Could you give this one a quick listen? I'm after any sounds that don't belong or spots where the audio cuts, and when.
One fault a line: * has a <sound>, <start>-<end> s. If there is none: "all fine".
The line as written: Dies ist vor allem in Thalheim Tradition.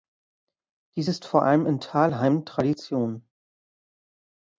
all fine